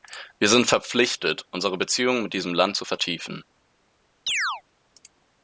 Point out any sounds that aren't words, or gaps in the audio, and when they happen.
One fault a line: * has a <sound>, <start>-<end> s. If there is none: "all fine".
* has a chirp, 4.3-4.6 s